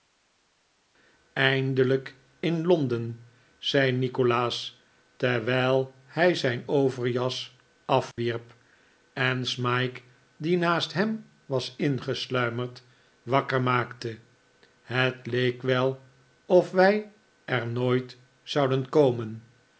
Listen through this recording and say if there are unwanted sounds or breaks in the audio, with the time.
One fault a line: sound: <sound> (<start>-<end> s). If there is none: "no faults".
sound: dropout (8.1-8.2 s)